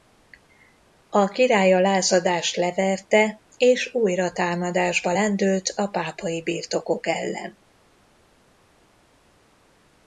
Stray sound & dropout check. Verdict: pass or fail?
pass